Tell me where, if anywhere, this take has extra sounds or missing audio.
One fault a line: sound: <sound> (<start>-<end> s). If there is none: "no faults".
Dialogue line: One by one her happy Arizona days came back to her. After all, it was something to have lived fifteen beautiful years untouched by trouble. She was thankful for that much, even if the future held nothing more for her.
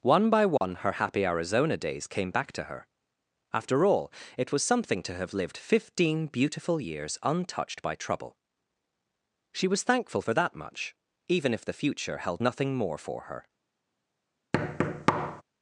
sound: dropout (0.6-0.6 s)
sound: thud (14.5-15.4 s)